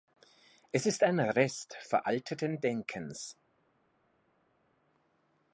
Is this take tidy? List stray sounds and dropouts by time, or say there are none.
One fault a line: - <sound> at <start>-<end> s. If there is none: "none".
none